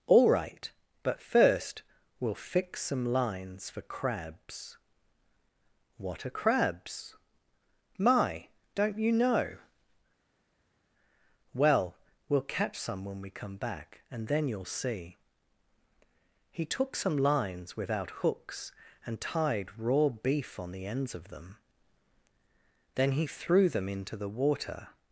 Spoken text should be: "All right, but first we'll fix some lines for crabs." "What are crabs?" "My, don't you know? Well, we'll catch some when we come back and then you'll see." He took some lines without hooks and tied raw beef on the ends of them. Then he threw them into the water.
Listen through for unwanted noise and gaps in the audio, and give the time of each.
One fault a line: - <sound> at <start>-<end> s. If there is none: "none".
none